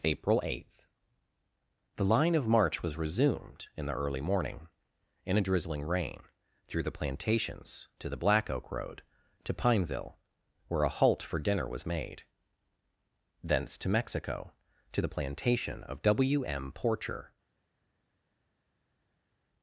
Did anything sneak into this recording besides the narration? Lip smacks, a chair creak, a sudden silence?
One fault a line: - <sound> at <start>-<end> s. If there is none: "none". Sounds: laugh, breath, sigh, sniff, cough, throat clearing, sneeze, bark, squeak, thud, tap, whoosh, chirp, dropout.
none